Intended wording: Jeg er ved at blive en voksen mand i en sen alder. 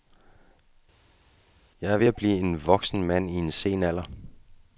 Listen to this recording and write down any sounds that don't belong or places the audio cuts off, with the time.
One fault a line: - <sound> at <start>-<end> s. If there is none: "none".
none